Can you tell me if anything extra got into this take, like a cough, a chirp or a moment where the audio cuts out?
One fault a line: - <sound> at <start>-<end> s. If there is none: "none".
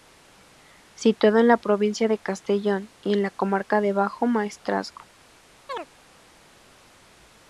- chirp at 5.7-5.9 s